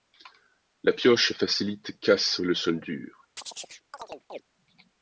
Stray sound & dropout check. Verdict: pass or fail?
fail